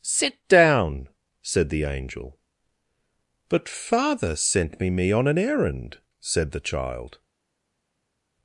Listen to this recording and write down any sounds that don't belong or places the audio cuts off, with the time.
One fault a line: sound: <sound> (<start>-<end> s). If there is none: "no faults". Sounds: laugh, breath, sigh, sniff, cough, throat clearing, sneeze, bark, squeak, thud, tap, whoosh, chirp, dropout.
no faults